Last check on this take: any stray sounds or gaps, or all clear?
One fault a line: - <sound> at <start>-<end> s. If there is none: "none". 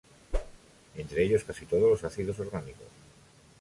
- whoosh at 0.3-0.6 s